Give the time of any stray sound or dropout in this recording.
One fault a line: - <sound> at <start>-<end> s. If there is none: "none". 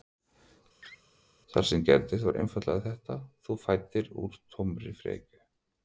- laugh at 0.8-1.0 s